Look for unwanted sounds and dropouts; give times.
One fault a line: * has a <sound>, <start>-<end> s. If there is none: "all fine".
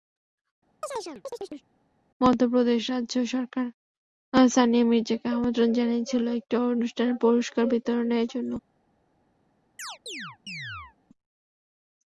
* has a chirp, 0.8-1.7 s
* has a chirp, 9.8-11.0 s